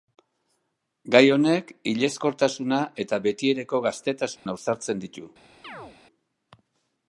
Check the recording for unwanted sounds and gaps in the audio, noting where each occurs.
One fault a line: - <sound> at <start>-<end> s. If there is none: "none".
- dropout at 4.4-4.5 s
- chirp at 5.6-6.0 s